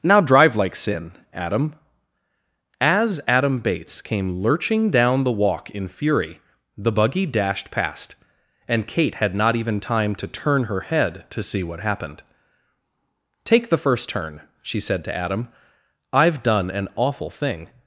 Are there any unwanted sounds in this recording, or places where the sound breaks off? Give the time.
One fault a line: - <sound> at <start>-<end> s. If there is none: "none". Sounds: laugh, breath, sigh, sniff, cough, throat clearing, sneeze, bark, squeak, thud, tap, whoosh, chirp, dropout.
none